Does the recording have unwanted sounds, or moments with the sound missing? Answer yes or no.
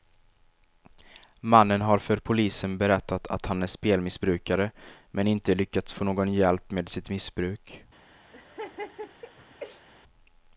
yes